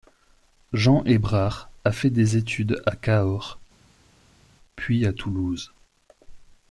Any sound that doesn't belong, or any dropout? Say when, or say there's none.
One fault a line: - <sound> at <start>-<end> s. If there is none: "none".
none